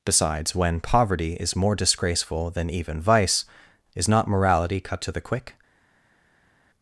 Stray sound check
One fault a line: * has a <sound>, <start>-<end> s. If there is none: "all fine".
all fine